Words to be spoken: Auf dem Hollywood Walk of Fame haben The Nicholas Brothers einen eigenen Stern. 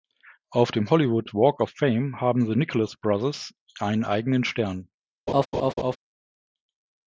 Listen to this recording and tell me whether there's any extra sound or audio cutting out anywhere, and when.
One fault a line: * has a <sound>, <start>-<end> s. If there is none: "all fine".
* has a laugh, 5.3-6.0 s